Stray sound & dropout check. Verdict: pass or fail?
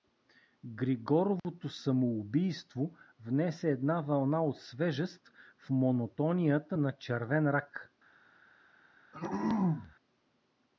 fail